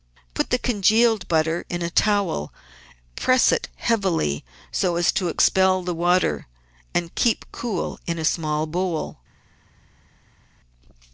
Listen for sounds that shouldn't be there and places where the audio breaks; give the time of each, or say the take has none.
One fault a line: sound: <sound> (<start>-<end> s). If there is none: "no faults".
no faults